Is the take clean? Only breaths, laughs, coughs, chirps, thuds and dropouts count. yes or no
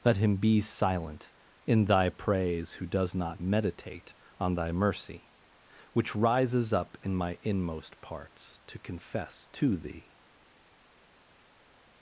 yes